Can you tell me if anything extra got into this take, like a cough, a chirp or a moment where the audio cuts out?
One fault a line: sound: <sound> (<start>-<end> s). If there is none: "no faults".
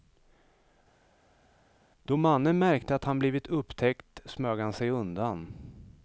no faults